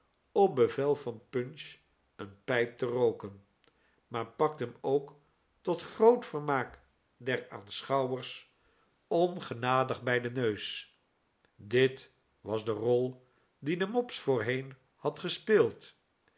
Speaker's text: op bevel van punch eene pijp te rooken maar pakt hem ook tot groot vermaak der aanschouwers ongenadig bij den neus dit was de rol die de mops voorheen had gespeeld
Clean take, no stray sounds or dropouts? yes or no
yes